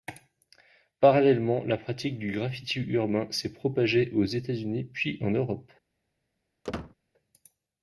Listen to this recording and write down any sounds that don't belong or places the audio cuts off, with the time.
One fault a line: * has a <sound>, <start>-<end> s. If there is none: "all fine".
* has a squeak, 6.6-7.0 s